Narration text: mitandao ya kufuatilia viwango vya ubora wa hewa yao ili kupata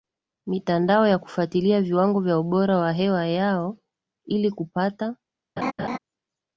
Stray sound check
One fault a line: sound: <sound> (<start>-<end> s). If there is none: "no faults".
sound: laugh (5.6-6.0 s)